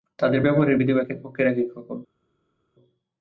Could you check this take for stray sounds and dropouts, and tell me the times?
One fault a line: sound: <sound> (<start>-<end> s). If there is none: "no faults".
no faults